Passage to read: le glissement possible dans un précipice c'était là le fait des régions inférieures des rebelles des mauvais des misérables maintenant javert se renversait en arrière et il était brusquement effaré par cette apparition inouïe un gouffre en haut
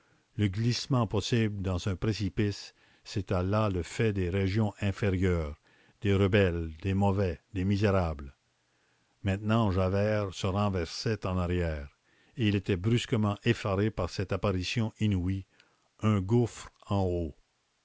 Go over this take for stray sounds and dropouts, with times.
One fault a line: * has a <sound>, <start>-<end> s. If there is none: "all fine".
all fine